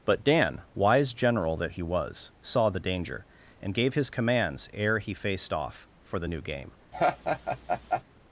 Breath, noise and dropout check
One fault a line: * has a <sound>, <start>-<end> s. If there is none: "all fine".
* has a laugh, 6.9-8.0 s